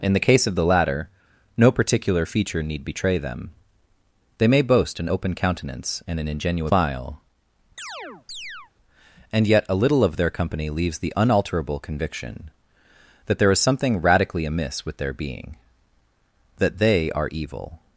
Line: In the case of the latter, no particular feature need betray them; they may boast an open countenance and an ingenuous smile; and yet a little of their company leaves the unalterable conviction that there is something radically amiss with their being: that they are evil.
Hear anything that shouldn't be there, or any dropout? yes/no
yes